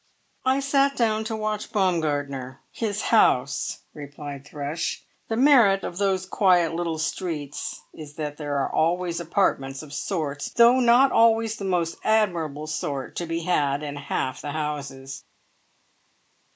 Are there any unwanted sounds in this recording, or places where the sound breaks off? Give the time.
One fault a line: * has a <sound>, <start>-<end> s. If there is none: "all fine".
all fine